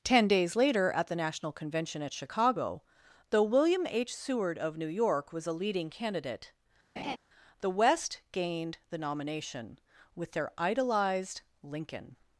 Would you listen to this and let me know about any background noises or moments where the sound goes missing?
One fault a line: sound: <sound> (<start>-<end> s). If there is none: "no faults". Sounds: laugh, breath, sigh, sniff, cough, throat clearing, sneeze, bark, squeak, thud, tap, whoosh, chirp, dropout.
sound: laugh (7.0-7.2 s)